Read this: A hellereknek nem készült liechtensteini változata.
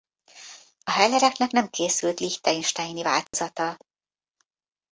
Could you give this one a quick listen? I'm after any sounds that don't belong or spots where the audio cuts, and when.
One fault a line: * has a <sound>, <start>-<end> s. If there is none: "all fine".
* has a dropout, 3.3-3.3 s